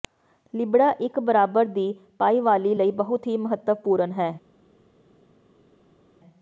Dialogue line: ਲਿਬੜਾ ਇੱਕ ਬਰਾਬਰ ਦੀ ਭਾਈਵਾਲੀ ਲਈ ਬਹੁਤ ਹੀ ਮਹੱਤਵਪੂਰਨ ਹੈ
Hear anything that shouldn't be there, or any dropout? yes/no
no